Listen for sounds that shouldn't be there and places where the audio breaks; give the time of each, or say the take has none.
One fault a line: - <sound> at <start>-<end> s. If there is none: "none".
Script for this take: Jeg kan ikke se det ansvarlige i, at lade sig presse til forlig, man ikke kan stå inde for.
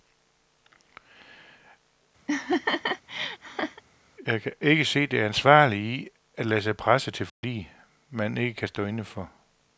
- laugh at 2.3-3.8 s
- dropout at 7.3-7.4 s